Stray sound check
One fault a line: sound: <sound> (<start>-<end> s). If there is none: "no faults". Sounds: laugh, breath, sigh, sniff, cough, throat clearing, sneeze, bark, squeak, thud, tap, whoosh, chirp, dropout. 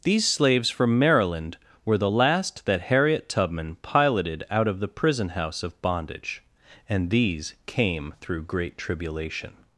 no faults